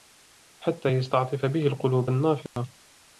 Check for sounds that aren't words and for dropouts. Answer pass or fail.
fail